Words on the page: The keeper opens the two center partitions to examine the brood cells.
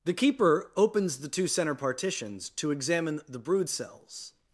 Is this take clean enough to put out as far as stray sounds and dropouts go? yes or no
yes